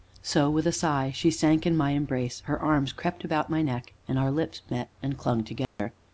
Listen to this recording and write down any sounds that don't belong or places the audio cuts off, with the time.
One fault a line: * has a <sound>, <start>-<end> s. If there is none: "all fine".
* has a dropout, 5.6-5.8 s